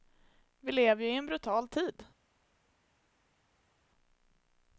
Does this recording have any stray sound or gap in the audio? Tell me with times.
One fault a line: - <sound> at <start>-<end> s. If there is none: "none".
none